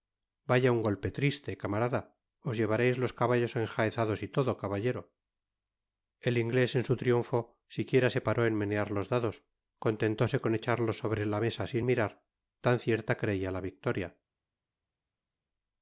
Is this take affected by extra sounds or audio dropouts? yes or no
no